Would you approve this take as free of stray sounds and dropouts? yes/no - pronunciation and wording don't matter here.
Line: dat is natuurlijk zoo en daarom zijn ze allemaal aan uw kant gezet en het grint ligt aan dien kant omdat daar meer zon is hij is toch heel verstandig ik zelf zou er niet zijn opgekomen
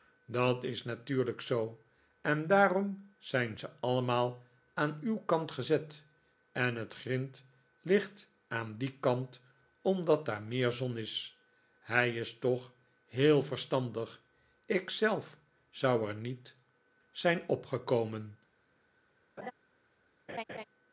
no